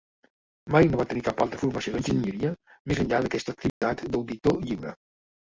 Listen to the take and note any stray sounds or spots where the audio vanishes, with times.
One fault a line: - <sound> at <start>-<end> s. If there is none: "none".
- dropout at 3.7-3.8 s